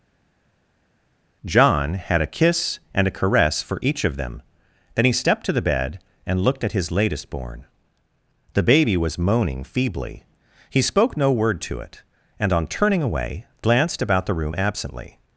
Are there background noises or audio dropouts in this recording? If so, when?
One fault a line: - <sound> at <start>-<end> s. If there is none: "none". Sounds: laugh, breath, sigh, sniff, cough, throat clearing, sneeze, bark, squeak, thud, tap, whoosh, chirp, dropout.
none